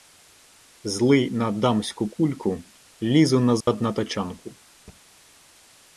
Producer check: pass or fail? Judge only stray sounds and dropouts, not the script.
fail